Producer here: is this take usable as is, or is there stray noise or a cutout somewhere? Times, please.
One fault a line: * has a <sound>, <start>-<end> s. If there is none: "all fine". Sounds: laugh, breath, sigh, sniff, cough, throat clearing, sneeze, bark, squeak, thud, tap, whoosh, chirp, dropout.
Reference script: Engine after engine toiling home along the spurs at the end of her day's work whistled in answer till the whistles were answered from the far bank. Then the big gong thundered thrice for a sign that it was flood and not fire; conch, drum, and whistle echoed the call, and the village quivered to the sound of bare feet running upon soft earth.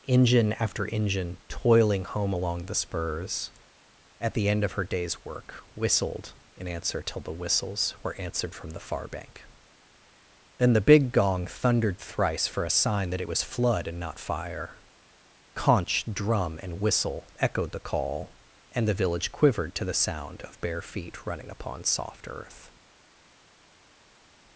all fine